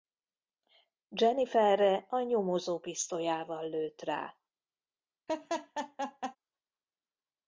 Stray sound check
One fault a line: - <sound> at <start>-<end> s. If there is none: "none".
- laugh at 5.3-6.4 s